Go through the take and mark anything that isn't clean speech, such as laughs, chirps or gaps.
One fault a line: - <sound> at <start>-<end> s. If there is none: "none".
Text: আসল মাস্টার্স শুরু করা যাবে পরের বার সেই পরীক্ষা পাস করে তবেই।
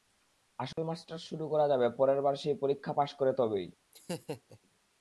- dropout at 0.7-0.8 s
- laugh at 3.9-4.6 s